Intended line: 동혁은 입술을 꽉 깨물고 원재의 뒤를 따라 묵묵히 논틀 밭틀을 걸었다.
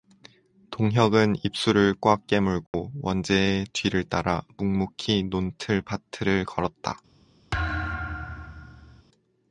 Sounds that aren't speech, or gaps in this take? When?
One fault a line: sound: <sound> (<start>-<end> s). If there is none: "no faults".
sound: dropout (2.7-2.7 s)
sound: thud (7.5-9.0 s)